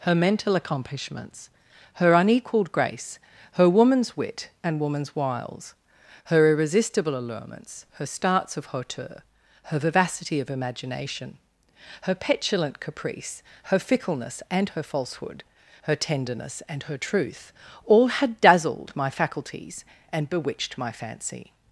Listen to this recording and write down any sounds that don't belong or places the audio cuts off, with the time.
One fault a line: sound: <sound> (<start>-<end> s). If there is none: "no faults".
no faults